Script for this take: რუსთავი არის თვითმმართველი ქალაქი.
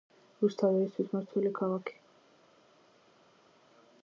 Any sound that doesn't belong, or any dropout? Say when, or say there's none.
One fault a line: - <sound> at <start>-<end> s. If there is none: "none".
none